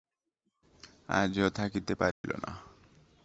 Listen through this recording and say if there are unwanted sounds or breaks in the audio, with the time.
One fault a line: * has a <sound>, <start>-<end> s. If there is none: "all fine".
* has a dropout, 2.1-2.2 s